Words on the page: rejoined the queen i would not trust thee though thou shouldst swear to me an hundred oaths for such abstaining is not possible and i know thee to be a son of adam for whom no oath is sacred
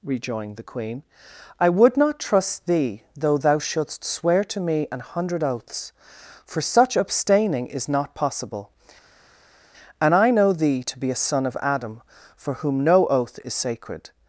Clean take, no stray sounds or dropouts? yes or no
yes